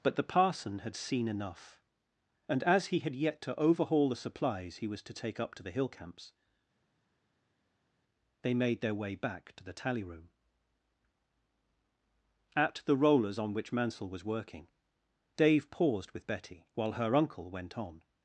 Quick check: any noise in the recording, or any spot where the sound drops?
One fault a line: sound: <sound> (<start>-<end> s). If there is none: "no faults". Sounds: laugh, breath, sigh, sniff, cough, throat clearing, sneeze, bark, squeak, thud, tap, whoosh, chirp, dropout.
no faults